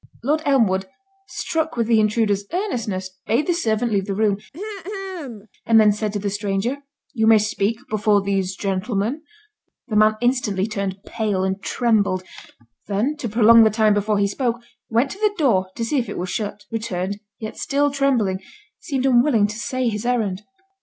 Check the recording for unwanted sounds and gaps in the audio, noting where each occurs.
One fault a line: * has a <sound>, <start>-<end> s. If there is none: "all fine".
* has a throat clearing, 4.5-5.5 s